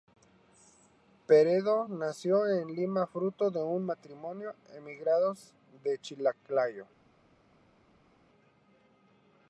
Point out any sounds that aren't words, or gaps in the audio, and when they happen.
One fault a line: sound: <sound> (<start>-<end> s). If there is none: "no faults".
no faults